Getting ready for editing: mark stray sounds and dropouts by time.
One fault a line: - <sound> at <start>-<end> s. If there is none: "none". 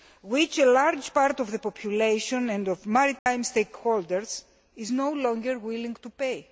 - dropout at 3.2-3.3 s